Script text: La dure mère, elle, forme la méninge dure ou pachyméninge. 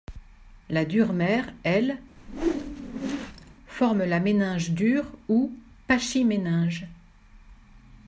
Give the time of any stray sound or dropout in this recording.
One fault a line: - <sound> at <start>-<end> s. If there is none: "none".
- whoosh at 2.2-3.5 s